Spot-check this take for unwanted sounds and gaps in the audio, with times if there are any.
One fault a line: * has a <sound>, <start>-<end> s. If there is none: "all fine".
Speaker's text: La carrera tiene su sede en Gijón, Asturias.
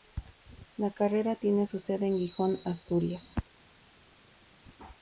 all fine